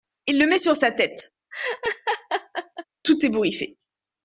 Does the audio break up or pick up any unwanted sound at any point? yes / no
yes